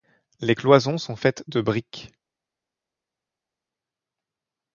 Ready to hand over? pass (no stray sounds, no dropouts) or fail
pass